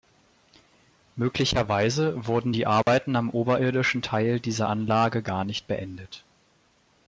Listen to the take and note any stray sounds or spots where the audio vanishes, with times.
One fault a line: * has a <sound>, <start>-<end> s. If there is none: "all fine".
* has a dropout, 2.8-2.9 s